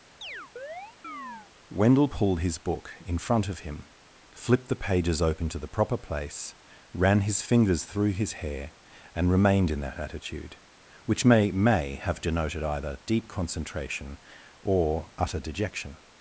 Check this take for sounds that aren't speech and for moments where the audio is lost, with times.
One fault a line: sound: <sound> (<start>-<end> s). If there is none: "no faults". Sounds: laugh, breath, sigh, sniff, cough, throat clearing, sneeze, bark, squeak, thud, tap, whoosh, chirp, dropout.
sound: chirp (0.2-1.5 s)